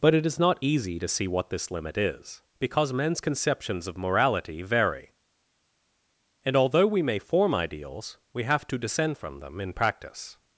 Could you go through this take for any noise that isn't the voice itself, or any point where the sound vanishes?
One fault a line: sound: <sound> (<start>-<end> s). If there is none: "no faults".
no faults